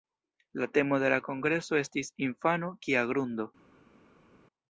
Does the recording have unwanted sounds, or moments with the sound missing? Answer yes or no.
no